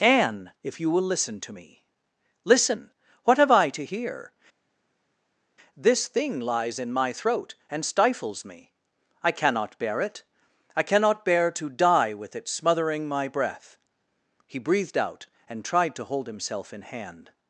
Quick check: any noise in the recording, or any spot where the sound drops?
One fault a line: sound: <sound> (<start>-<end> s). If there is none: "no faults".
no faults